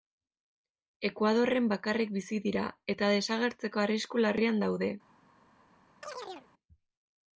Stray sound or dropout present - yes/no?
yes